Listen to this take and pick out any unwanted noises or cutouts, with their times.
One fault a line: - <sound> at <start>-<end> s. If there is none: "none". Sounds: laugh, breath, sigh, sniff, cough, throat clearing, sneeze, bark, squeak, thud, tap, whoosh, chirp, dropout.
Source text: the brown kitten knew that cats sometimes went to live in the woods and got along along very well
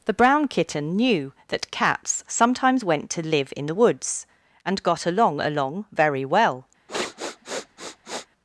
- sniff at 6.9-8.3 s